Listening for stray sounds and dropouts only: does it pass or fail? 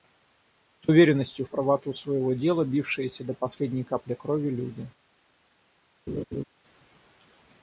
fail